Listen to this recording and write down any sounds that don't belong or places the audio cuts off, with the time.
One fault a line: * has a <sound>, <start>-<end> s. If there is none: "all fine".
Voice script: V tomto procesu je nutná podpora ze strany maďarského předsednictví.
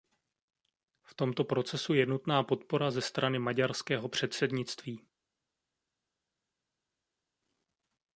all fine